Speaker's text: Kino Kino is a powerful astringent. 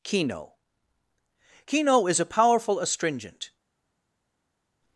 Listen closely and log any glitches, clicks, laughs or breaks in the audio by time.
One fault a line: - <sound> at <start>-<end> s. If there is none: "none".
none